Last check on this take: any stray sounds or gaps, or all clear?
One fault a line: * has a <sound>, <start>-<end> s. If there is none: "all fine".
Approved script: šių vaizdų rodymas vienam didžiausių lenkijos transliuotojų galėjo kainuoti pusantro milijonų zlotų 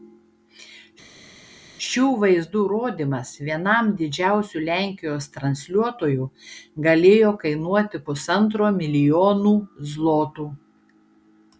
all fine